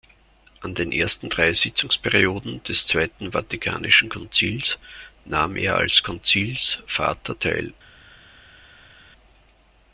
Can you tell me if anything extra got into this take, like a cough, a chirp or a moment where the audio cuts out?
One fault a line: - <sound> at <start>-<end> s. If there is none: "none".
none